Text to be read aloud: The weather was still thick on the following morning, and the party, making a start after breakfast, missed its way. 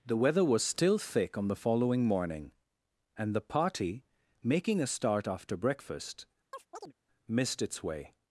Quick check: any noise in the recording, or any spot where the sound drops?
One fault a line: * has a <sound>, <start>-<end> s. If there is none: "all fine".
* has a chirp, 6.5-6.9 s